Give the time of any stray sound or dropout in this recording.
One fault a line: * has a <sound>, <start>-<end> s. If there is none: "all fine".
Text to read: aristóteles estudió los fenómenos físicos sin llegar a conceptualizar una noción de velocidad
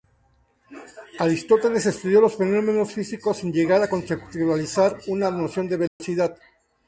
* has a dropout, 5.9-6.0 s